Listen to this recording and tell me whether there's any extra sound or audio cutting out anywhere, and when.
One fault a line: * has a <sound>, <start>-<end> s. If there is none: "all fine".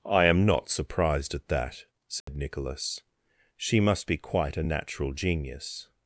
* has a dropout, 2.2-2.3 s